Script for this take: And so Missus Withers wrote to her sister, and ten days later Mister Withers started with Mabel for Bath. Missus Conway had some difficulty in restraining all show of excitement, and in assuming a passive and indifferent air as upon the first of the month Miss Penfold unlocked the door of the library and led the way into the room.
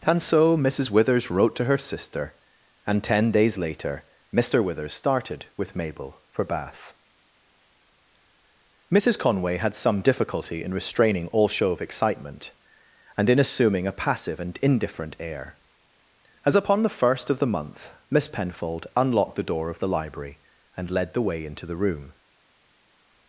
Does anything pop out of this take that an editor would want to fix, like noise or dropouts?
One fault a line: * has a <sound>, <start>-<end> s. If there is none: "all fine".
all fine